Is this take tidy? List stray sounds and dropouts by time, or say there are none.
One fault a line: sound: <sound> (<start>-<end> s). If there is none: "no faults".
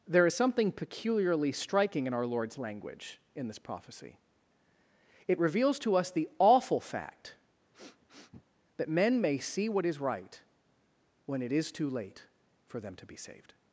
sound: sniff (7.7-8.5 s)